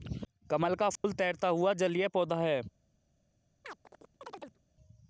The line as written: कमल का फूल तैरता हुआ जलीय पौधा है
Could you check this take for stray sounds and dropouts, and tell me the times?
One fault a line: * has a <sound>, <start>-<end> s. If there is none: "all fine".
* has a dropout, 1.0-1.0 s
* has a chirp, 3.6-4.6 s